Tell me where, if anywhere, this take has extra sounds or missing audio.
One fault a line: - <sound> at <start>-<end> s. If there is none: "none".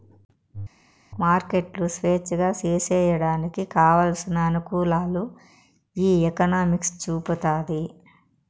none